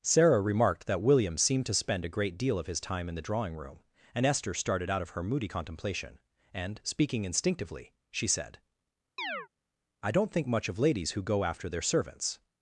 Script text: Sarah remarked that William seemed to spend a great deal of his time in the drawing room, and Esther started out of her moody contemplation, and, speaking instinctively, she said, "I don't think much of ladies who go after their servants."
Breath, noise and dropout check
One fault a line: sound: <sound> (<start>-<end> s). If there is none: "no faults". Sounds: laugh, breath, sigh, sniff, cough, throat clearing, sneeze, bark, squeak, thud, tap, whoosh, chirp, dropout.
sound: chirp (9.2-9.5 s)